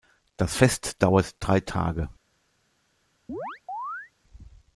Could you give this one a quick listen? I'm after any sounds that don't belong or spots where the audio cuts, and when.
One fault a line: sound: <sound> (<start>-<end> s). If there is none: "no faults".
sound: chirp (3.3-4.1 s)